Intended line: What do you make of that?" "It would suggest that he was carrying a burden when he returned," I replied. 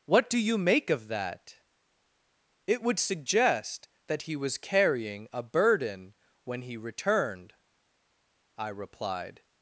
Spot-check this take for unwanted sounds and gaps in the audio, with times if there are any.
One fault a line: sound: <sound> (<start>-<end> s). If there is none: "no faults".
no faults